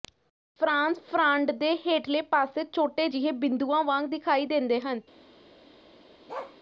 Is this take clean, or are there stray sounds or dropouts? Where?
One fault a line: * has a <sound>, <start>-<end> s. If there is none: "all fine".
* has a bark, 6.3-6.6 s